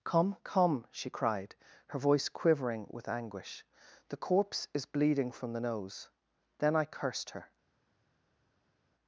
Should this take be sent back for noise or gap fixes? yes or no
no